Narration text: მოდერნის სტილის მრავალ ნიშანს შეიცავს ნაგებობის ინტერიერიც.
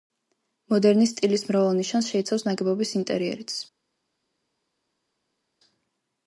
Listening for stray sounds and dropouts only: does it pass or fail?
pass